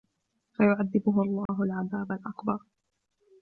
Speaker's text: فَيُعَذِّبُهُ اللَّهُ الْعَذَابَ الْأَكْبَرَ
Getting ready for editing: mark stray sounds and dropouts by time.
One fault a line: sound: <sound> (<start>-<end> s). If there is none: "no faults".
sound: dropout (1.5-1.5 s)